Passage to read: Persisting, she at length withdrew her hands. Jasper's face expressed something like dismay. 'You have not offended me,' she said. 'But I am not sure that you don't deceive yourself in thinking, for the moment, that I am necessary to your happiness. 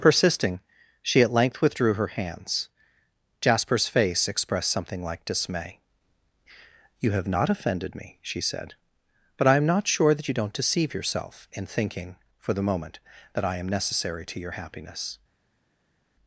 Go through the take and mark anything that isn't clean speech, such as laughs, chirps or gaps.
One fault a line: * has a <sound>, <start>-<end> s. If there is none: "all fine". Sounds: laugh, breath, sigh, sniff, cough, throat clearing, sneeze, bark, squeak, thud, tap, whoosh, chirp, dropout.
all fine